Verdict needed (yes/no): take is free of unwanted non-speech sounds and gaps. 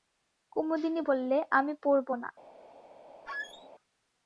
no